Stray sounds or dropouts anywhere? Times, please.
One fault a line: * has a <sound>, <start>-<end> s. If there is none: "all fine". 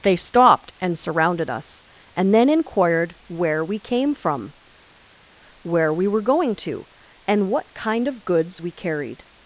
all fine